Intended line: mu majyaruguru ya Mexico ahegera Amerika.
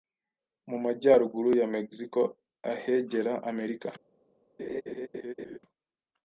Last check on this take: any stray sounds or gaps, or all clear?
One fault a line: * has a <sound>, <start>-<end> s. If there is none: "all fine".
* has a laugh, 4.6-5.6 s